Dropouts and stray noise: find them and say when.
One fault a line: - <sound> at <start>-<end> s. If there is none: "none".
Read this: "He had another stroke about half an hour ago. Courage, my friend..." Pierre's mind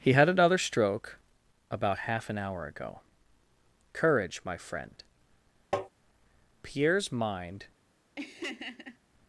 - tap at 5.7-5.9 s
- laugh at 8.2-9.0 s